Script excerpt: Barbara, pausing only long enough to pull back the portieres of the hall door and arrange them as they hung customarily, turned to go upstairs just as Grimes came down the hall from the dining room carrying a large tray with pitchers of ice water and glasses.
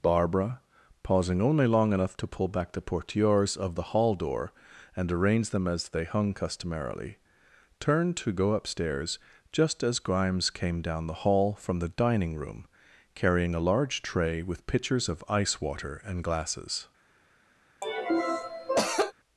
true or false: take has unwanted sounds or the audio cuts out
true